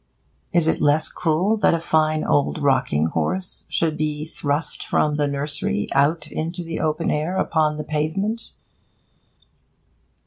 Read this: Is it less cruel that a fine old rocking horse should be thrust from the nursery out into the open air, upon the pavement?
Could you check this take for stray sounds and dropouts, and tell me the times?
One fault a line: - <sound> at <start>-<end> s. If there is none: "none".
none